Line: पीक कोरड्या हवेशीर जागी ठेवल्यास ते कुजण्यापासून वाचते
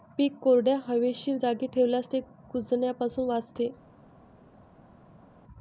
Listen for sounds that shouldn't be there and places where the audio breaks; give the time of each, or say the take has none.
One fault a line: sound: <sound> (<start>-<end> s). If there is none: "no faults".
no faults